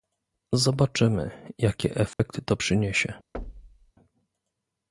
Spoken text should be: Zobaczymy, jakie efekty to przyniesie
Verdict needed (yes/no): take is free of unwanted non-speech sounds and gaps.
no